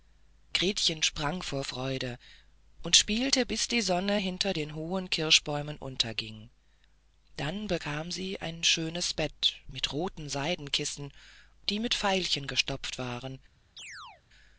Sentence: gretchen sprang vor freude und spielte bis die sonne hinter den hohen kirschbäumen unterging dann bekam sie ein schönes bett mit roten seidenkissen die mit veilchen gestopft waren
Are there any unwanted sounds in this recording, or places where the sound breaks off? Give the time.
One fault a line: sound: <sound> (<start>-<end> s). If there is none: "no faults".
sound: chirp (13.8-14.2 s)